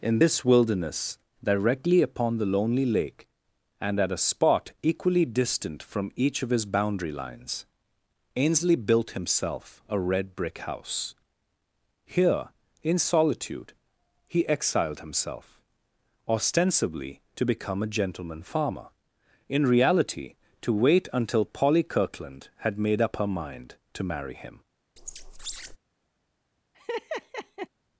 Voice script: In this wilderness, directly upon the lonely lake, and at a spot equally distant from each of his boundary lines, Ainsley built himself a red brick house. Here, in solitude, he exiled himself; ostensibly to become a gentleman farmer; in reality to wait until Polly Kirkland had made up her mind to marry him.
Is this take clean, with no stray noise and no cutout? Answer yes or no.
no